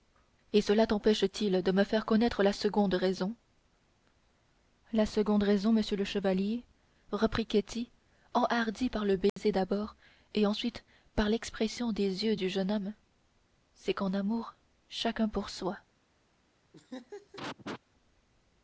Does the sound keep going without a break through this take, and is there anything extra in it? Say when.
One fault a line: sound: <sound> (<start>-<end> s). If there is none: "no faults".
sound: dropout (9.3-9.4 s)
sound: laugh (16.7-17.8 s)